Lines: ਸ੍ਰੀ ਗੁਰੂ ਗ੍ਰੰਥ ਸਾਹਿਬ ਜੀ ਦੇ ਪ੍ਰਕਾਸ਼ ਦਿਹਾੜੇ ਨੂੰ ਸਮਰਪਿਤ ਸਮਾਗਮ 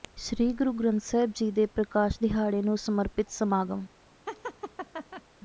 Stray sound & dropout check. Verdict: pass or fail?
fail